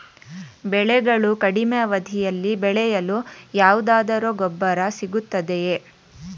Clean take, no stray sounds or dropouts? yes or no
yes